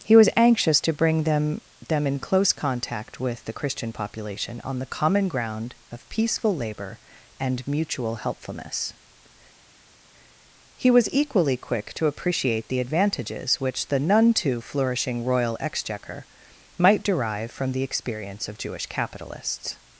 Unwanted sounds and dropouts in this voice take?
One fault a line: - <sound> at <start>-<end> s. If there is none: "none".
none